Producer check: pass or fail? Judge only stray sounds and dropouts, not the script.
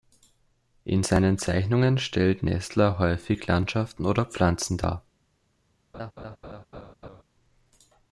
fail